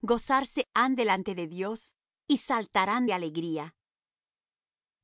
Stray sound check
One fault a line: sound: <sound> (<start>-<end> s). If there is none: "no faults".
no faults